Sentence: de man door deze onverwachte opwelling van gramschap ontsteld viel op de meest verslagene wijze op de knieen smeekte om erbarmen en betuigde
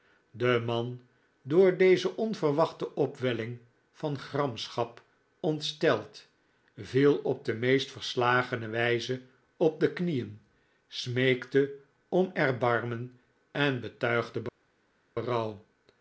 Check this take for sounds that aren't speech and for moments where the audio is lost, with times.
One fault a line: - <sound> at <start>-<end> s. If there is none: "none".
none